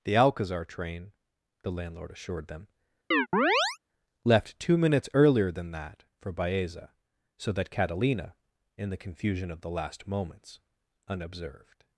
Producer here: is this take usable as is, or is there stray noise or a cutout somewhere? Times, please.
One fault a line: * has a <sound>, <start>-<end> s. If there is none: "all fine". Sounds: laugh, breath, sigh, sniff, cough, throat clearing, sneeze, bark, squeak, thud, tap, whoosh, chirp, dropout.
* has a chirp, 3.1-3.8 s